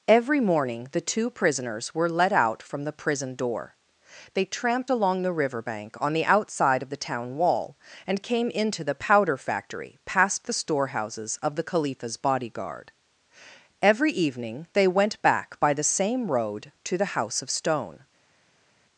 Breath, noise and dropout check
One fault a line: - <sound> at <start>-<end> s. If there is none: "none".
none